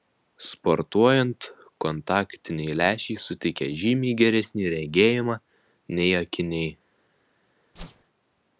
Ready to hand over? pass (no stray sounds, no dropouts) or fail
fail